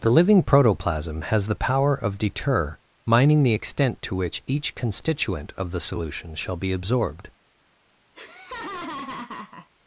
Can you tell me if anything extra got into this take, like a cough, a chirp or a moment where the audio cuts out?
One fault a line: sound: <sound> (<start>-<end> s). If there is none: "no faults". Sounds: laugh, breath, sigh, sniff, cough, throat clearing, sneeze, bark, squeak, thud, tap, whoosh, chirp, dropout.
sound: laugh (8.1-9.7 s)